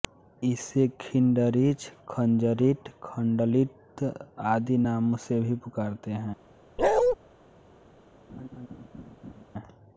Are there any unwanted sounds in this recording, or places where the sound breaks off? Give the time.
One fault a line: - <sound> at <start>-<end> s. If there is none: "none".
- bark at 6.8-7.2 s
- laugh at 8.3-9.5 s